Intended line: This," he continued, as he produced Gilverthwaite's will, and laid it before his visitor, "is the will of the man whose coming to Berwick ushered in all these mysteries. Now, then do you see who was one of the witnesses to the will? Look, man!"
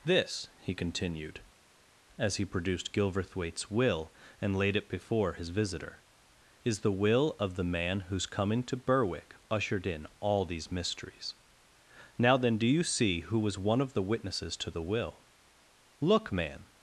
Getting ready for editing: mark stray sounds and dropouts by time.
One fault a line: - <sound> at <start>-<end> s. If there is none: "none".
none